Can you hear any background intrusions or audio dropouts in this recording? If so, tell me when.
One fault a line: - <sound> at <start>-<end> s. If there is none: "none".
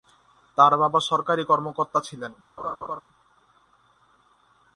- laugh at 2.6-3.0 s